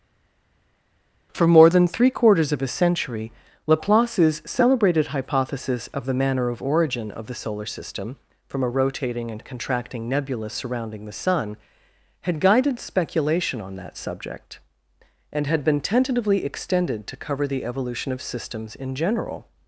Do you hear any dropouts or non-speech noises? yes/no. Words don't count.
no